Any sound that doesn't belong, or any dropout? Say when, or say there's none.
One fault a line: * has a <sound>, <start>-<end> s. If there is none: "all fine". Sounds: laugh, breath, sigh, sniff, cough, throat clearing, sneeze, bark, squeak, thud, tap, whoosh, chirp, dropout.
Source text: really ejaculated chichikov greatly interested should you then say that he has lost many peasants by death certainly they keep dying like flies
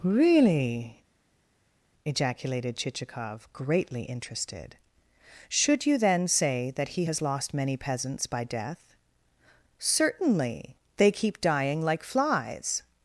all fine